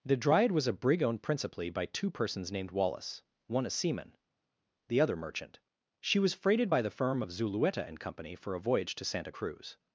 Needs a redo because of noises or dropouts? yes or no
no